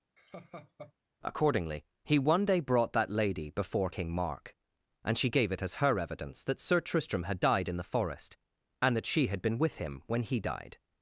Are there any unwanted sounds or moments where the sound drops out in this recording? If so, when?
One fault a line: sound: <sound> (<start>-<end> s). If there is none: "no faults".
sound: laugh (0.2-0.9 s)